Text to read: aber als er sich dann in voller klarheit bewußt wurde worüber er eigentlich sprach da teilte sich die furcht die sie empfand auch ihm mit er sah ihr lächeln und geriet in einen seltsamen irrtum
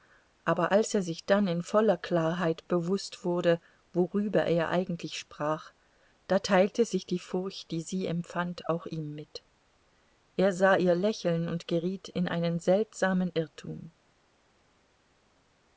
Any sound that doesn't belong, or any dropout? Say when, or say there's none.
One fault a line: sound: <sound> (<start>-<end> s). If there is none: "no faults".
no faults